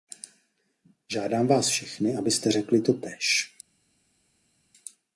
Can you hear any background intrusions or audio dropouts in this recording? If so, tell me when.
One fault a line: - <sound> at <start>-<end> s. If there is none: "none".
none